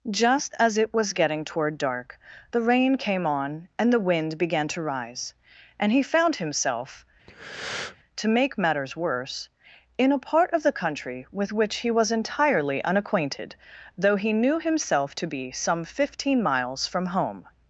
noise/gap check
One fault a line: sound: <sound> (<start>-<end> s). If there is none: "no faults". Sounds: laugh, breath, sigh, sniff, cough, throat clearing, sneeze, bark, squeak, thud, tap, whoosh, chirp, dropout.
sound: breath (7.3-8.0 s)